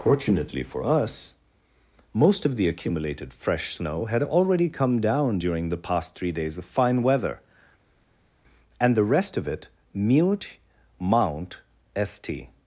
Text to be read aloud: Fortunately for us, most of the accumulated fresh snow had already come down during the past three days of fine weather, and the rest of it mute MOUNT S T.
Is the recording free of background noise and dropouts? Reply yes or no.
yes